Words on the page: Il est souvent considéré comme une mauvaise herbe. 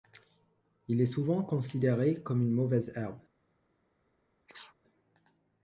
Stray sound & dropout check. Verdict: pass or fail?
fail